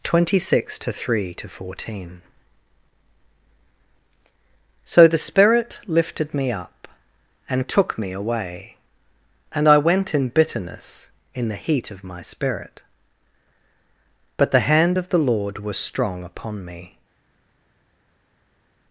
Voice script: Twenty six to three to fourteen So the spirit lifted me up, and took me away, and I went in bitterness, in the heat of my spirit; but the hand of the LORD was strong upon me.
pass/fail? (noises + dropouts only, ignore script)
pass